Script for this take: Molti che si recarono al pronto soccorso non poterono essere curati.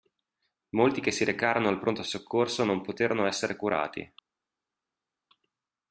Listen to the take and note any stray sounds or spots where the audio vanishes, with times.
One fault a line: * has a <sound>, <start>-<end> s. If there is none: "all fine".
all fine